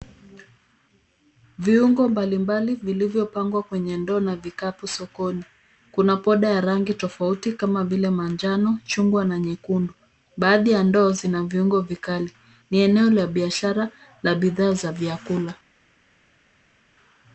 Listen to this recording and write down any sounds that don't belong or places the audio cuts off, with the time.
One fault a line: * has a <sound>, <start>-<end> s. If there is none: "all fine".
all fine